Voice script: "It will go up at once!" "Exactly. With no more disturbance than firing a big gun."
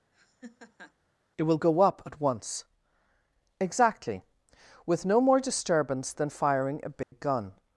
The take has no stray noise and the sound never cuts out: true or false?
false